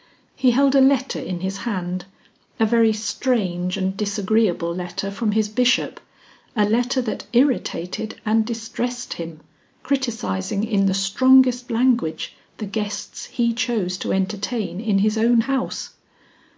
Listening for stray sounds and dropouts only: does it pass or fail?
pass